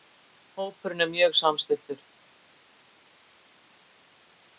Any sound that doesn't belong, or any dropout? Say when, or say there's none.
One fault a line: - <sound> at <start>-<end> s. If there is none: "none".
none